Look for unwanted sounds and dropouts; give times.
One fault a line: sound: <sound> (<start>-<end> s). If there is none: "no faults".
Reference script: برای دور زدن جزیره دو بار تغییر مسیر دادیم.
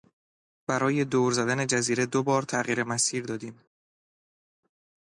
no faults